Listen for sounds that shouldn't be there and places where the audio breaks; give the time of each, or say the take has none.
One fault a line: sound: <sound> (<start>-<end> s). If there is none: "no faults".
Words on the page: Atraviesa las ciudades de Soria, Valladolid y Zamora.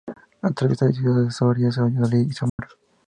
sound: dropout (2.5-2.6 s)